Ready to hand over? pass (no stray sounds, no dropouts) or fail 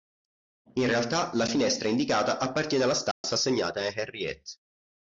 fail